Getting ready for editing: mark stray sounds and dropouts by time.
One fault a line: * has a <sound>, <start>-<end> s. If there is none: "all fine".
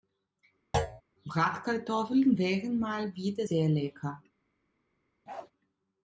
* has a thud, 0.7-1.0 s
* has a bark, 5.3-5.5 s